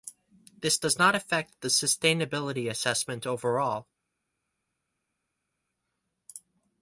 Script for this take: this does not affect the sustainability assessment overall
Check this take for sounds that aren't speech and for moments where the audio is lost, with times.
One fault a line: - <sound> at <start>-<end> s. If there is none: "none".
none